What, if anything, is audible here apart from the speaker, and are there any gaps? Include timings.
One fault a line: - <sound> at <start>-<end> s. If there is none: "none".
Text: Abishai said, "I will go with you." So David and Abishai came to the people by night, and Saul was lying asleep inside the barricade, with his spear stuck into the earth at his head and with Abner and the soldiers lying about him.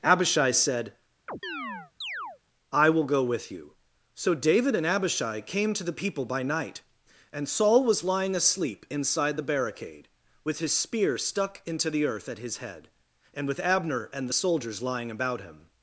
- chirp at 1.3-2.4 s